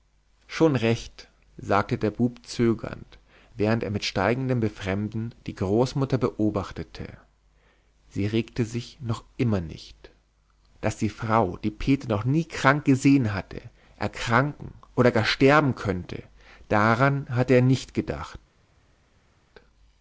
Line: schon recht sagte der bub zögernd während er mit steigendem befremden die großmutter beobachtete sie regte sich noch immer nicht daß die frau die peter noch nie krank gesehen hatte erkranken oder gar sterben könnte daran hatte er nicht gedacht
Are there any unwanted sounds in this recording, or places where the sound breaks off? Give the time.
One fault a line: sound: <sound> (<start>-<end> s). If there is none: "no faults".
no faults